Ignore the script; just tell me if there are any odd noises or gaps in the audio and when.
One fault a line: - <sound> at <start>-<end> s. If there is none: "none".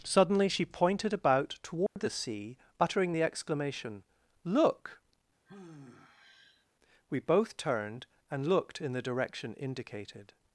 - dropout at 1.9-2.0 s
- sigh at 5.5-6.7 s